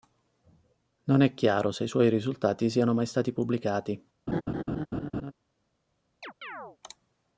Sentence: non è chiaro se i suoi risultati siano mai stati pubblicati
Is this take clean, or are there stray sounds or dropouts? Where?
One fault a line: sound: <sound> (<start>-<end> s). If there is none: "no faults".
sound: laugh (4.3-5.3 s)
sound: chirp (6.2-6.8 s)